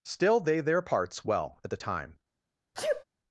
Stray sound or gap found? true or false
true